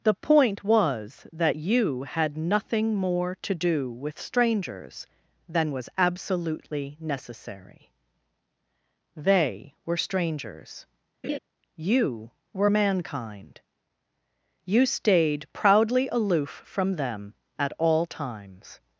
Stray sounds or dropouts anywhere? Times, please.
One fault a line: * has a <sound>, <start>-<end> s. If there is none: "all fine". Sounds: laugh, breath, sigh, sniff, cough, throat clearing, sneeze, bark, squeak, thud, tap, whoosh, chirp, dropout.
* has a laugh, 11.2-11.4 s